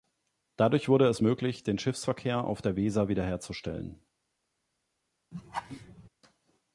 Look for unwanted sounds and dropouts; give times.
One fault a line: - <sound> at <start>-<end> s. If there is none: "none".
- laugh at 5.3-6.1 s